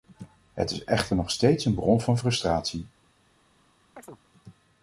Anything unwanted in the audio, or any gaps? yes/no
yes